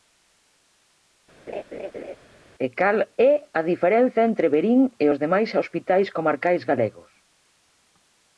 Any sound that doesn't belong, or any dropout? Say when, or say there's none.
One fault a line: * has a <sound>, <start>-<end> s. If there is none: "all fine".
* has a laugh, 1.5-2.2 s